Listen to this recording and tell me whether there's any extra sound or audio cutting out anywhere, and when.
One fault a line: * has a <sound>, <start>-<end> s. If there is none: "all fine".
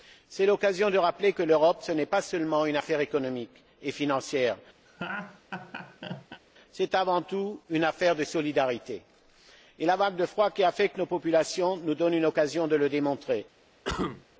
* has a laugh, 4.9-6.4 s
* has a cough, 13.8-14.2 s